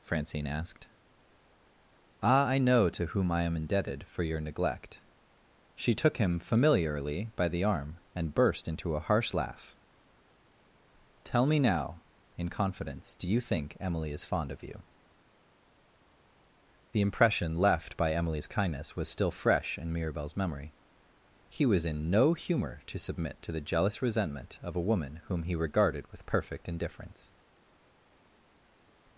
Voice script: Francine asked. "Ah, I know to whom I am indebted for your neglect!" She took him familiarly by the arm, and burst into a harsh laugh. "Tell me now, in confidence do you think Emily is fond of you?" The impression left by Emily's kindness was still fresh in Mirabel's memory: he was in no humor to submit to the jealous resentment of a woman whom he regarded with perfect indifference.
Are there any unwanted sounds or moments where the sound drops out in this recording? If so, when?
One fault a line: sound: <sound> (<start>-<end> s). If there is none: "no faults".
no faults